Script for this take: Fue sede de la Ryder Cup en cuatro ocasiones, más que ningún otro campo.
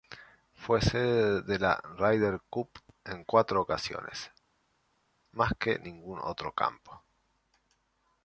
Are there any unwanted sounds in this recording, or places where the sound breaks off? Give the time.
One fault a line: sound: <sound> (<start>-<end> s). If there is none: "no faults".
no faults